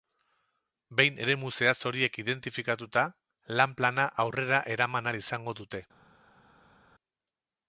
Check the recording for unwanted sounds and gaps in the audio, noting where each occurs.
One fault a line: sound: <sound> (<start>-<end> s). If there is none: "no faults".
no faults